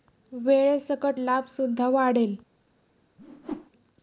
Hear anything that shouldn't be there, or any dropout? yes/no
yes